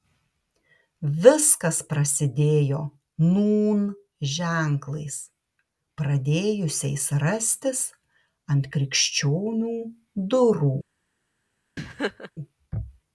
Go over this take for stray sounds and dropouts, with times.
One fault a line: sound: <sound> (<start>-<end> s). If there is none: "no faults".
sound: laugh (11.8-12.3 s)